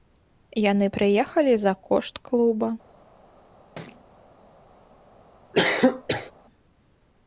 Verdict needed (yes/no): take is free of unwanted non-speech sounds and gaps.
no